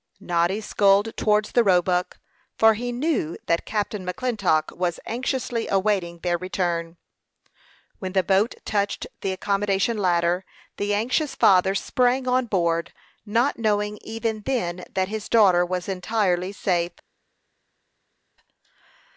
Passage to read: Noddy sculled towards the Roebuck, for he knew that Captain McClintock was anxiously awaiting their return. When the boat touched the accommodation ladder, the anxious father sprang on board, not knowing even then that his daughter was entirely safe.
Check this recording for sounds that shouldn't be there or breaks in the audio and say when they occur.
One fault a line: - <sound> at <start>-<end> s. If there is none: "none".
none